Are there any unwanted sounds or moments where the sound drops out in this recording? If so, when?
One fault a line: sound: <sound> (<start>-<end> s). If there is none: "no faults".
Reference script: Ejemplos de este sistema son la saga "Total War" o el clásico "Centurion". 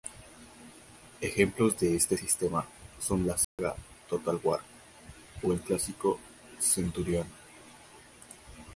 sound: dropout (3.4-3.6 s)